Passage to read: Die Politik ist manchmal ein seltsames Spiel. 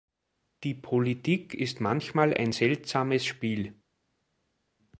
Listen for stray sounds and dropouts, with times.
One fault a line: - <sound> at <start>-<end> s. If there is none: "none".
none